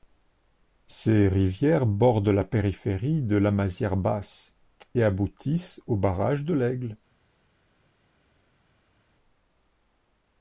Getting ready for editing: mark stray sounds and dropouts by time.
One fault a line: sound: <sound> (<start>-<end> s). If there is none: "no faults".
no faults